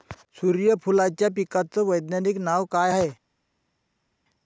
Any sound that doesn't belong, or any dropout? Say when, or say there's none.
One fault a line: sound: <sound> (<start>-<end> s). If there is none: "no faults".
no faults